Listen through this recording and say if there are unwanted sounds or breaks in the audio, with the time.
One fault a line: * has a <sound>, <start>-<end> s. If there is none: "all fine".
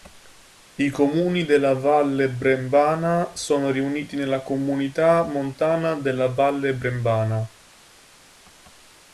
all fine